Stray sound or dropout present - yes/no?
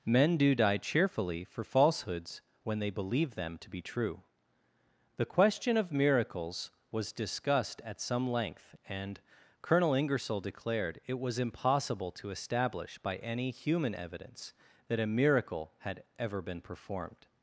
no